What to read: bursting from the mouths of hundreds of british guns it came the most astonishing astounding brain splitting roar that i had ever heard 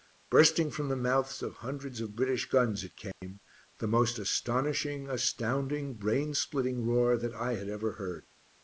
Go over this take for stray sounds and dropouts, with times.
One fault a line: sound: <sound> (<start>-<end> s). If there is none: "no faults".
sound: dropout (3.1-3.2 s)